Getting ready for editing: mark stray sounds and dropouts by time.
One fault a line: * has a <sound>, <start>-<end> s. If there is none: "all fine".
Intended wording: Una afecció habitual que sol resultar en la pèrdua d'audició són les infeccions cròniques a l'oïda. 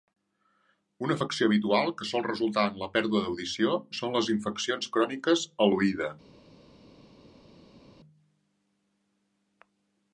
all fine